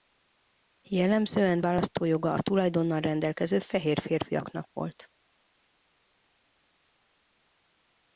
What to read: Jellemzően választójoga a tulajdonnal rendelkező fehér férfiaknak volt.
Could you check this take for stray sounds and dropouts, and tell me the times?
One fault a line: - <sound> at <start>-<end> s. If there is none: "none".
none